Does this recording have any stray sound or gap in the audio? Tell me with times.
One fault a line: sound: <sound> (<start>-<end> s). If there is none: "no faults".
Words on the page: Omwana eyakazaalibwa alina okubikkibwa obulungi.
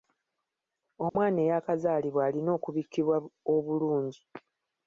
sound: dropout (1.1-1.2 s)